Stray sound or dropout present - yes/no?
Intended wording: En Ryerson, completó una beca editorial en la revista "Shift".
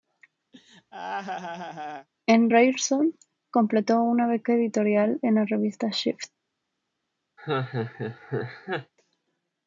yes